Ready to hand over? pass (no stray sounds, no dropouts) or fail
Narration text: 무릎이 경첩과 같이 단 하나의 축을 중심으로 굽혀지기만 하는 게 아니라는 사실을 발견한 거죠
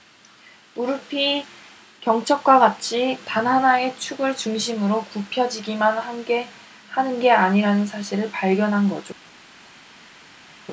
pass